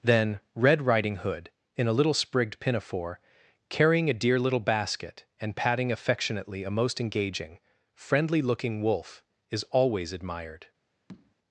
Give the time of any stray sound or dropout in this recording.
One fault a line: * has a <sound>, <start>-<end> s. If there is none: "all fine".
* has a tap, 11.1-11.4 s